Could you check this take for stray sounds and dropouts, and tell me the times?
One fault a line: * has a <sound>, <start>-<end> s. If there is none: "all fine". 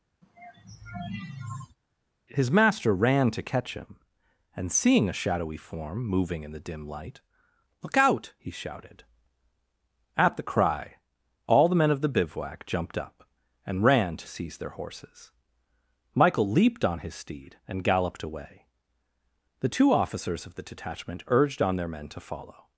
* has a sigh, 0.2-1.8 s